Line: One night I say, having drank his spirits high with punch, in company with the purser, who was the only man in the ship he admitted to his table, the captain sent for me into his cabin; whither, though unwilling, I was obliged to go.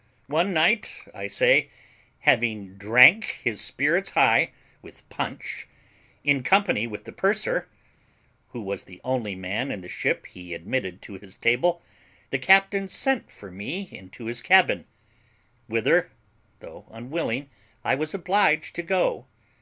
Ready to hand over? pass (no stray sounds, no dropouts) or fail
pass